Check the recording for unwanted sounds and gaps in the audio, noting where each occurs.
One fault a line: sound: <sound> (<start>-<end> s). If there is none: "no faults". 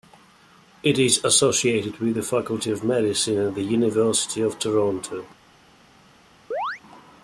sound: chirp (6.5-6.8 s)